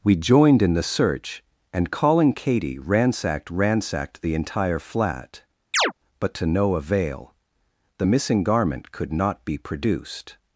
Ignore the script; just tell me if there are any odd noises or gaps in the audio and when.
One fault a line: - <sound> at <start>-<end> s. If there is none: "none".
- chirp at 5.7-5.9 s